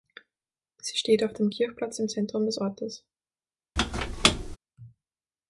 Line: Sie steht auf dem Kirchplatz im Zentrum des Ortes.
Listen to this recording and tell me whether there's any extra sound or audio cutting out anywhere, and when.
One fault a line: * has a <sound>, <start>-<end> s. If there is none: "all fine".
* has a squeak, 3.8-4.6 s